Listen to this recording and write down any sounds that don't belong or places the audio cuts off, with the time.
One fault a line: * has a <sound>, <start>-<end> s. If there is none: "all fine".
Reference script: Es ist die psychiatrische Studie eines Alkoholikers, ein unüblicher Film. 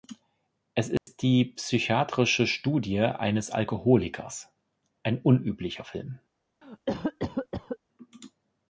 * has a dropout, 1.0-1.1 s
* has a cough, 6.6-7.8 s